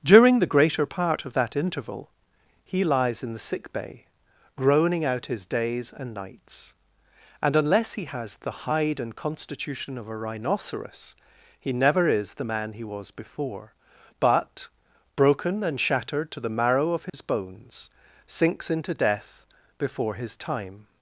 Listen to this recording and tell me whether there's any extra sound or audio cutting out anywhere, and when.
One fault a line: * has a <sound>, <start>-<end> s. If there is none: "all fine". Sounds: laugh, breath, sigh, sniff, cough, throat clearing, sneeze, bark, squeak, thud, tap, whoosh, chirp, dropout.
* has a dropout, 17.1-17.1 s